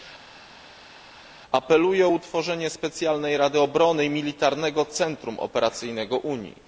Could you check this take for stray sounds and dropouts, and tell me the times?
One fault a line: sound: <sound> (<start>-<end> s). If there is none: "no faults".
no faults